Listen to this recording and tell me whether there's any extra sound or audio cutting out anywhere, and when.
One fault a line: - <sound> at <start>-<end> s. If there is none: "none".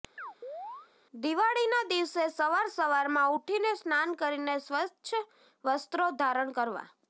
- chirp at 0.2-0.9 s